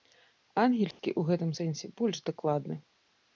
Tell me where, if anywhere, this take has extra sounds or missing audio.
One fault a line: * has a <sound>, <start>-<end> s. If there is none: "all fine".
* has a dropout, 0.9-1.0 s